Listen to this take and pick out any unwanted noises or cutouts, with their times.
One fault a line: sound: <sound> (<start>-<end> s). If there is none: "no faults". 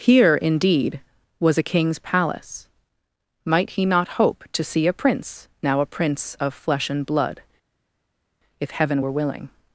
no faults